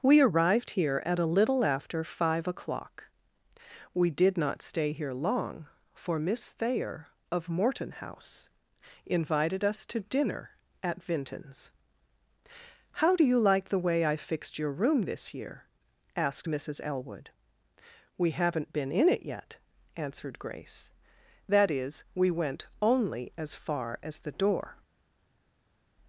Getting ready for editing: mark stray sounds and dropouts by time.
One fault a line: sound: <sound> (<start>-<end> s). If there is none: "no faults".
no faults